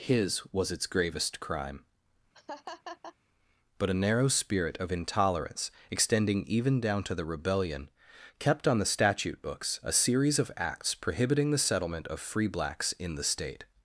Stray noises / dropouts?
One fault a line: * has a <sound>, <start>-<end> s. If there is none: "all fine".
* has a laugh, 2.3-3.2 s